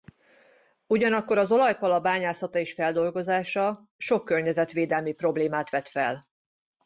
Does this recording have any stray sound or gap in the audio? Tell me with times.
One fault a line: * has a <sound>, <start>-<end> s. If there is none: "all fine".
all fine